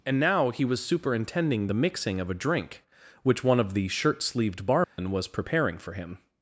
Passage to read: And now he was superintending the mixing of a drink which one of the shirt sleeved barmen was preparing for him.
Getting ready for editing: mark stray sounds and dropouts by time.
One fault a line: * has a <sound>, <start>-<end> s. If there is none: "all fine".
* has a dropout, 4.8-5.0 s